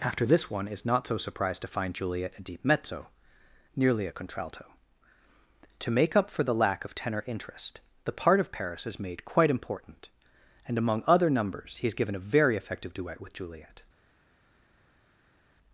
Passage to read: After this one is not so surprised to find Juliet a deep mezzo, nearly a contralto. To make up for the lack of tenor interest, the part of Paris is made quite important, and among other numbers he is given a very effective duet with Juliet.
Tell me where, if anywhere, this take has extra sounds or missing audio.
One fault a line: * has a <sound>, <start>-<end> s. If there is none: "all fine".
all fine